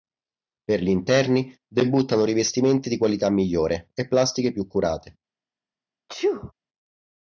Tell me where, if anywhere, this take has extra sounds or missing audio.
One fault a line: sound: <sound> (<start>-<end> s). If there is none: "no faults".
sound: sneeze (6.1-6.5 s)